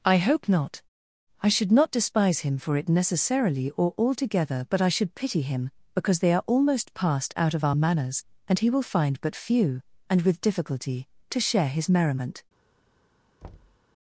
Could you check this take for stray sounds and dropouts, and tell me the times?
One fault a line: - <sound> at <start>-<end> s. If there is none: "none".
- thud at 13.4-13.8 s